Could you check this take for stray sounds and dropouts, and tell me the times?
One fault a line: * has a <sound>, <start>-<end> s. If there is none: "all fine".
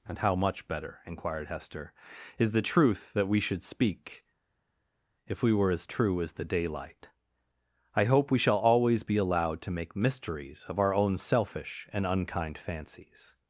all fine